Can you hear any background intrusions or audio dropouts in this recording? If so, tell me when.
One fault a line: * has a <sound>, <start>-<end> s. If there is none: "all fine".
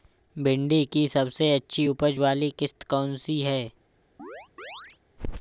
* has a chirp, 4.2-5.0 s